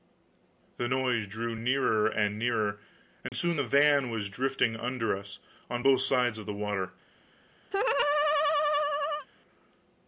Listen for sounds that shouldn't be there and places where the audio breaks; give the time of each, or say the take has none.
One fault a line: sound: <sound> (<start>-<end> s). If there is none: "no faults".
sound: dropout (3.3-3.3 s)
sound: laugh (7.7-9.3 s)